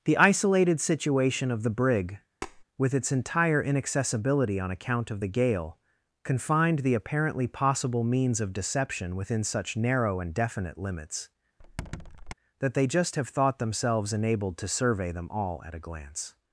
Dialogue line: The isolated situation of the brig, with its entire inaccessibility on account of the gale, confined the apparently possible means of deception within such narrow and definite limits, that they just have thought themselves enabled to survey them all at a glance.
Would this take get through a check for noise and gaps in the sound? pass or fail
fail